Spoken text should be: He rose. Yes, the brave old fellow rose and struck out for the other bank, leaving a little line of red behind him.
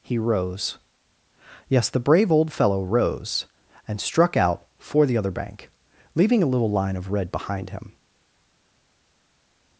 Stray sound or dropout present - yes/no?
no